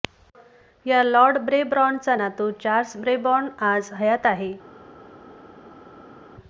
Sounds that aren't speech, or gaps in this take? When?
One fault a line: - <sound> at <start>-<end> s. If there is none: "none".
none